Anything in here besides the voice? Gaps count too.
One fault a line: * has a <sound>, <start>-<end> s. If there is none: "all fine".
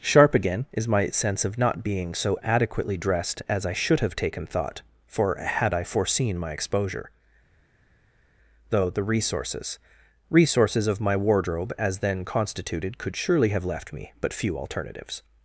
all fine